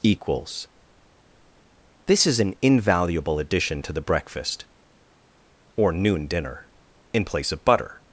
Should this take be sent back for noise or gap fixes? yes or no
no